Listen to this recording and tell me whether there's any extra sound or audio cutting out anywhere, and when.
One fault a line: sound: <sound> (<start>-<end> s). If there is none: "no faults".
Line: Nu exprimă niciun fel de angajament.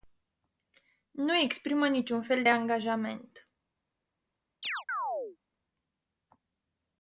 sound: chirp (4.6-5.4 s)